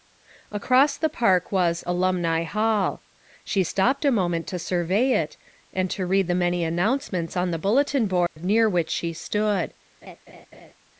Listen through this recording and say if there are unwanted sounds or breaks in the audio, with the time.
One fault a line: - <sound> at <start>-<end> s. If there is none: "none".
- dropout at 8.3-8.4 s
- laugh at 10.0-10.7 s